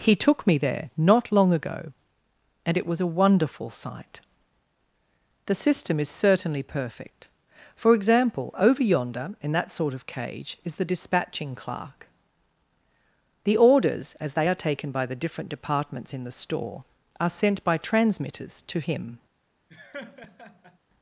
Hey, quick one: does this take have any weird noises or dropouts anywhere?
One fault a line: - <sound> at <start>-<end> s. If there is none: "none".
- laugh at 19.7-20.8 s